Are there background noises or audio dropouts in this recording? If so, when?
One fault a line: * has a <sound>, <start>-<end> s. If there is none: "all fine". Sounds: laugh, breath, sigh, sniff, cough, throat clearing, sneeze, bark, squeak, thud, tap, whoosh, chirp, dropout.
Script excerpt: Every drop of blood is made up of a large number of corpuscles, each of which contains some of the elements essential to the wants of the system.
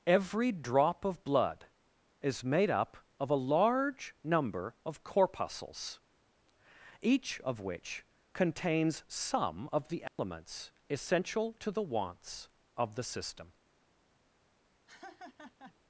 * has a dropout, 10.1-10.2 s
* has a laugh, 14.9-15.8 s